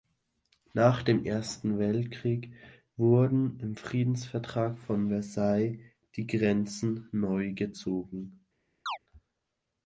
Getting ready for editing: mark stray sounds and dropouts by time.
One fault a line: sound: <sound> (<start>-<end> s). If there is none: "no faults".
sound: chirp (8.9-9.0 s)